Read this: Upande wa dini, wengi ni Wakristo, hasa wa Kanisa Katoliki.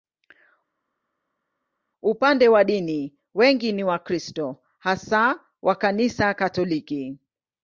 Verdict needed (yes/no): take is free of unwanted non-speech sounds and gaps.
yes